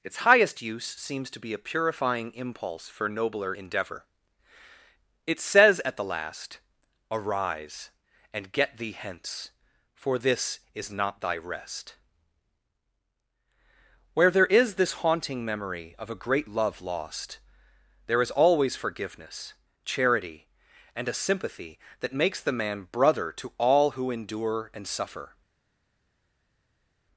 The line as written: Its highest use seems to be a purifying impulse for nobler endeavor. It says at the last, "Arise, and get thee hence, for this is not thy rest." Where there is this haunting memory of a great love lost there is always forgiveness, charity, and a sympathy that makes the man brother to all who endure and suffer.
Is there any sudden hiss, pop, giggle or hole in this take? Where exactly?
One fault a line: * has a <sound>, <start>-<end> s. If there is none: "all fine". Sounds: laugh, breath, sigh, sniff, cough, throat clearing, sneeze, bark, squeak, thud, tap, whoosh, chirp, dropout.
all fine